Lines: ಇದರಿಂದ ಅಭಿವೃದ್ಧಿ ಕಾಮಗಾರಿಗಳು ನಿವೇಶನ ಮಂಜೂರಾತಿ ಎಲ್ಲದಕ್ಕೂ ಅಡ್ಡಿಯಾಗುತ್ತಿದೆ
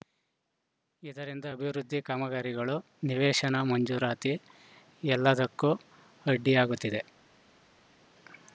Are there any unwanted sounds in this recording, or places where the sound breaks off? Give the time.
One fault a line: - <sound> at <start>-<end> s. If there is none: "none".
none